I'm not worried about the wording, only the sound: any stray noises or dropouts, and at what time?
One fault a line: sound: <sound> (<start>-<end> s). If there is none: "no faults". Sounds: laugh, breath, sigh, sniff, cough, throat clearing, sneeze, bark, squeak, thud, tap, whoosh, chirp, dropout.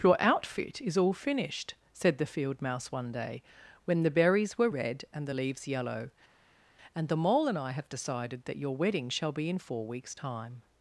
no faults